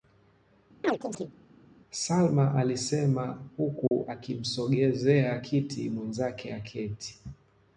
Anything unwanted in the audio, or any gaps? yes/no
yes